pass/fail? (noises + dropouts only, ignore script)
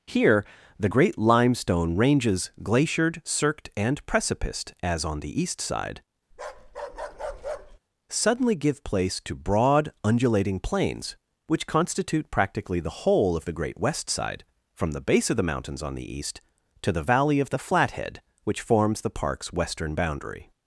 fail